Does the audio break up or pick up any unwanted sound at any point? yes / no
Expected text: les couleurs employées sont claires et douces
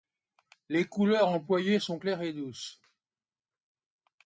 no